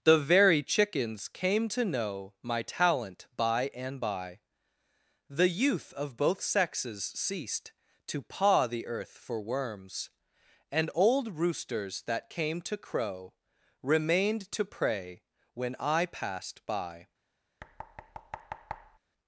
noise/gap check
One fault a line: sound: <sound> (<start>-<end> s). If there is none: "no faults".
sound: thud (17.6-19.0 s)